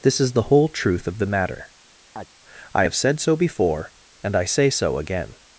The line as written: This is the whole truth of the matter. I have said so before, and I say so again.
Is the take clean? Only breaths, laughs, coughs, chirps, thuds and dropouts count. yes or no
no